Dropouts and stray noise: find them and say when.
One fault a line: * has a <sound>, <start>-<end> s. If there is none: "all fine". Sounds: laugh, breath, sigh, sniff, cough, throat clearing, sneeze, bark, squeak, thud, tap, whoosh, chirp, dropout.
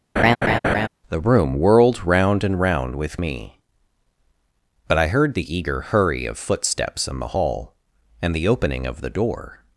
* has a laugh, 0.2-0.9 s